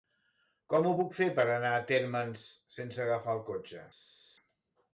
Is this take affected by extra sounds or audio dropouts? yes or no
no